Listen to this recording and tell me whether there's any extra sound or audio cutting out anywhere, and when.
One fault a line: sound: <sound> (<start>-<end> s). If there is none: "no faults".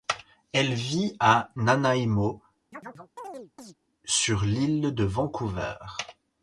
sound: chirp (2.7-3.7 s)